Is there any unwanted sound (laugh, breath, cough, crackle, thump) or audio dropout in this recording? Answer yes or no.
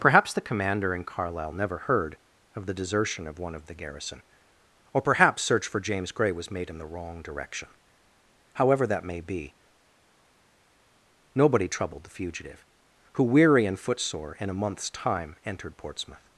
no